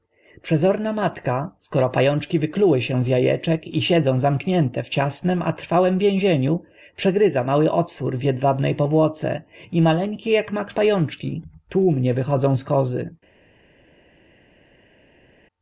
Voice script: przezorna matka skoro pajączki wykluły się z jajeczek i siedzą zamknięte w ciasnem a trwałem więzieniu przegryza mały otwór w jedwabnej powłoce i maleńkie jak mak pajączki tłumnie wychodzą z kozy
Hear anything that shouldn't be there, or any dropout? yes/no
no